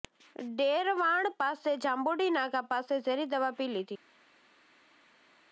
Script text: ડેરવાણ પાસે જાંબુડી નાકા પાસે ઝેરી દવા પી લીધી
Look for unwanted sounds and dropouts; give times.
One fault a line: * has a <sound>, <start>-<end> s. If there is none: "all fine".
all fine